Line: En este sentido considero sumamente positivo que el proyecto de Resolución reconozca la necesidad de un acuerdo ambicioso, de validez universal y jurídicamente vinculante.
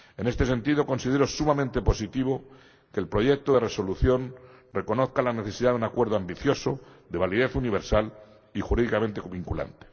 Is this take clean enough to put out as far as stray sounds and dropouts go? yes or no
yes